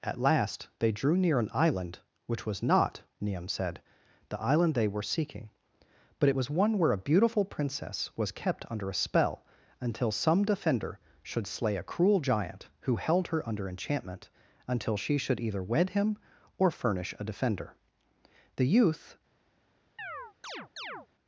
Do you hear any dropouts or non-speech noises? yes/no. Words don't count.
yes